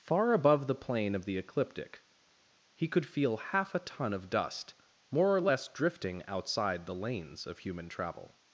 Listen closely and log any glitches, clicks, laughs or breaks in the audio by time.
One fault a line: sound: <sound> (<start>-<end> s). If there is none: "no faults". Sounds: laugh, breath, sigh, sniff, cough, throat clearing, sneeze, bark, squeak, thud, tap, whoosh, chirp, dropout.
no faults